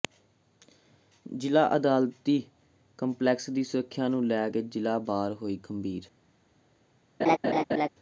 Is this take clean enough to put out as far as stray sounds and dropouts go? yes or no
no